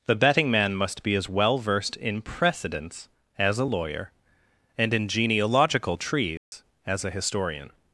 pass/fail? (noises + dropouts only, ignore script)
fail